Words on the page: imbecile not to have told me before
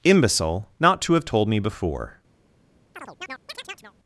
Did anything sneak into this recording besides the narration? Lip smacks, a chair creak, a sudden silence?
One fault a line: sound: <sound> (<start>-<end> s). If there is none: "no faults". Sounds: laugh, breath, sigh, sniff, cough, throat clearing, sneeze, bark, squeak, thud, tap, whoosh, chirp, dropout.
sound: chirp (2.9-3.9 s)